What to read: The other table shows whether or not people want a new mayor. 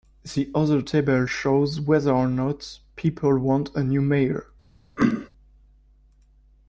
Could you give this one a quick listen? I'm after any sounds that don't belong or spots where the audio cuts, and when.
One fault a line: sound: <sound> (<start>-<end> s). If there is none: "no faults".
sound: throat clearing (5.0-5.3 s)